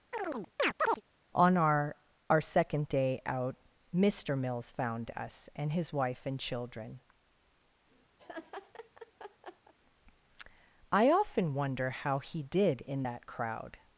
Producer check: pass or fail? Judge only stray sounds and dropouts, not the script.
fail